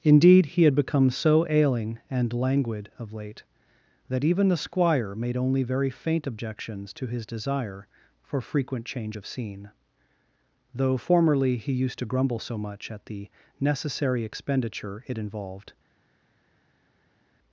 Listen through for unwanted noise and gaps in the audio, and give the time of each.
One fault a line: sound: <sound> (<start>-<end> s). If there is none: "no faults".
no faults